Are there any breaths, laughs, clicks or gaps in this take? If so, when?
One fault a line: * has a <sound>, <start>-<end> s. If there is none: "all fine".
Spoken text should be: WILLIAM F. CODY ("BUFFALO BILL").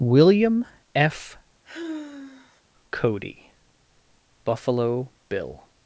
* has a sigh, 1.6-2.6 s